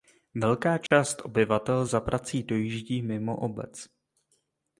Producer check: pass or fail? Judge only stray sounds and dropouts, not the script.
fail